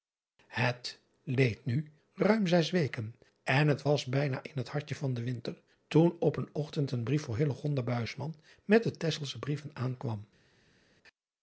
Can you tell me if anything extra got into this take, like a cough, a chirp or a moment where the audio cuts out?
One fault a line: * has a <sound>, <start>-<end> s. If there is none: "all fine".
all fine